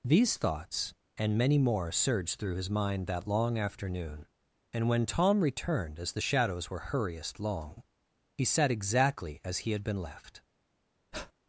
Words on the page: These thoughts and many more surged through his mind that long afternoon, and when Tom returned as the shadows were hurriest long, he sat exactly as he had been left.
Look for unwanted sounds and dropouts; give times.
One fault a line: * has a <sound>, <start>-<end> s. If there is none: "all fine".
* has a breath, 11.1-11.3 s